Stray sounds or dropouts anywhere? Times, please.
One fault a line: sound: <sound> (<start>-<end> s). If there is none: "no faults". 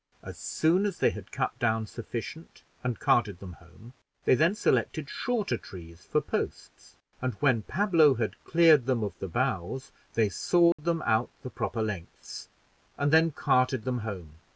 sound: dropout (10.7-10.8 s)